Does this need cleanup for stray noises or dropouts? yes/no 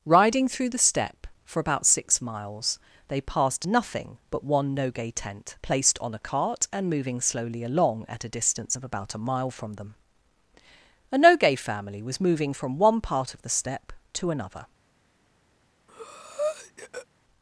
yes